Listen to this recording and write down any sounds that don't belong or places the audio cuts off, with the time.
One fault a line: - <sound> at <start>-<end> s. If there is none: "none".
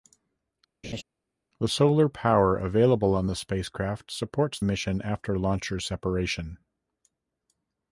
- laugh at 0.8-1.0 s